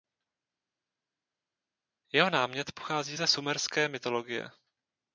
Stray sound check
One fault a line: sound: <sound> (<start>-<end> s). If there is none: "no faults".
no faults